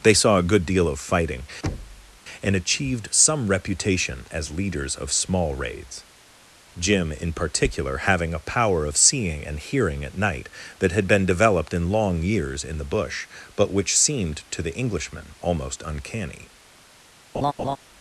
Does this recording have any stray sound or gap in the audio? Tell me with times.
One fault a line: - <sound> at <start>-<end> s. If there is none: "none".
- thud at 1.6-2.2 s
- laugh at 17.3-17.8 s